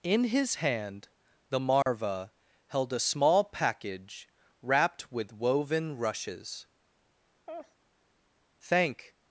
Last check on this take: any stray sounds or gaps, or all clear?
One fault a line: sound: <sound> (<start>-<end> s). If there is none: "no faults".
sound: dropout (1.8-1.9 s)
sound: laugh (7.5-7.8 s)